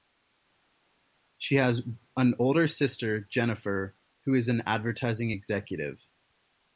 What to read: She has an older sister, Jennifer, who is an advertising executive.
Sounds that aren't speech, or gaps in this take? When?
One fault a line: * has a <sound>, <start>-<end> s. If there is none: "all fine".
all fine